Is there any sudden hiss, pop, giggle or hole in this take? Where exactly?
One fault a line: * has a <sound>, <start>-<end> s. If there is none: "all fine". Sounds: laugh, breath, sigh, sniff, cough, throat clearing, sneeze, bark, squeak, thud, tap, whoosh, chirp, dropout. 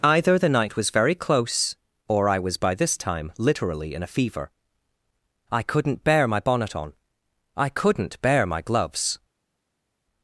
all fine